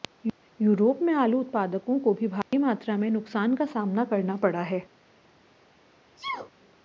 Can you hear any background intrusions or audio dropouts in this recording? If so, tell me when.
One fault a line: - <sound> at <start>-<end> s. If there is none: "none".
- dropout at 2.4-2.5 s
- sneeze at 6.2-6.5 s